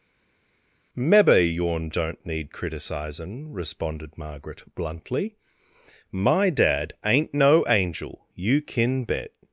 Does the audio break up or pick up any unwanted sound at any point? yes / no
no